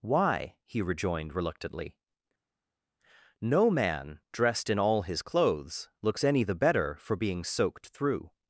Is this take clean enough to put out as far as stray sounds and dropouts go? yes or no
yes